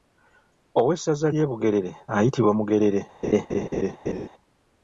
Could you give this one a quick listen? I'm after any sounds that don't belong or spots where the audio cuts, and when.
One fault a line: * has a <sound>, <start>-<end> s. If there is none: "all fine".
* has a laugh, 3.2-4.3 s